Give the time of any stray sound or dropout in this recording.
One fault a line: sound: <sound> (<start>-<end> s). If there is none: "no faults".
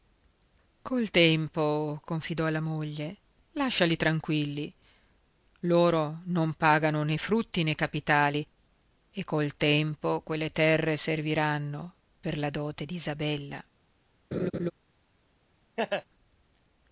sound: laugh (14.3-14.7 s)
sound: laugh (15.8-16.1 s)